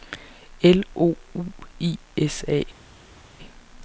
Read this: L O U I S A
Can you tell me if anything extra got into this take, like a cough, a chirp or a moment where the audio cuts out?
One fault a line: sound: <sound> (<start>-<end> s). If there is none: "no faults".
no faults